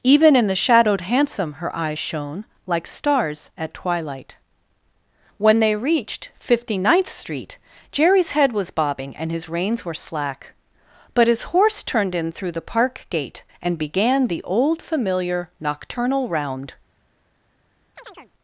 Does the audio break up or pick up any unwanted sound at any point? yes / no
yes